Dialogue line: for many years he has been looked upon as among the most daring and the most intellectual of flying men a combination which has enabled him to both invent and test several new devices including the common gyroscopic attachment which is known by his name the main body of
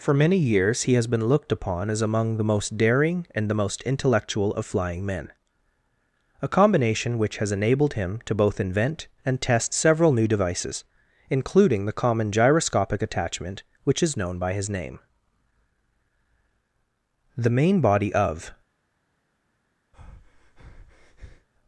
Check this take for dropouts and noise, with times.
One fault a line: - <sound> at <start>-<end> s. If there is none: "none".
- breath at 19.9-21.5 s